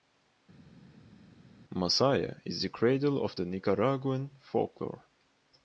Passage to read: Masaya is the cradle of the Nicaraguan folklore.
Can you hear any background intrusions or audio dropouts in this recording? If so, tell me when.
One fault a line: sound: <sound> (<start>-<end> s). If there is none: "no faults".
no faults